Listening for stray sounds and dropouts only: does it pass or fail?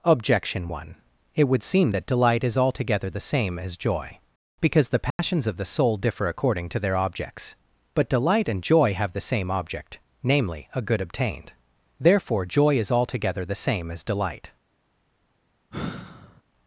fail